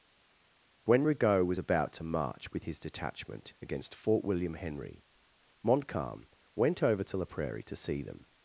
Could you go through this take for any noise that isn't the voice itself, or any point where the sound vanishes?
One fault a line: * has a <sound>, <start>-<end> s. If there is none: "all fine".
all fine